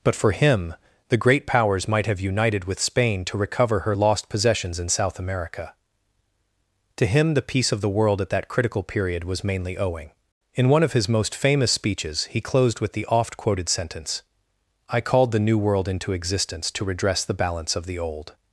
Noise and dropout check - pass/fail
pass